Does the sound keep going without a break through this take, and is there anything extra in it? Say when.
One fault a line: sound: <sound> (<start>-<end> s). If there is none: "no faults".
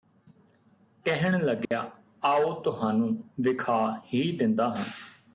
sound: dropout (1.7-1.7 s)